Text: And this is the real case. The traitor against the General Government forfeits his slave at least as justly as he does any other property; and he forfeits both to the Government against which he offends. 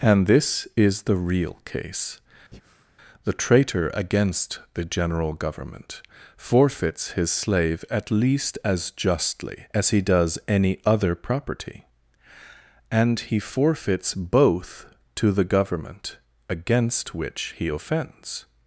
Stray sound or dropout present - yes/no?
yes